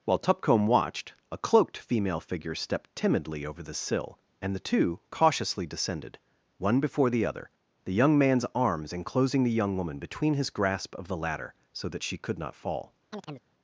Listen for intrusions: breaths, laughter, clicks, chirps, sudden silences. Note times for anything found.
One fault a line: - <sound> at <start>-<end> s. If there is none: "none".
- chirp at 13.1-13.4 s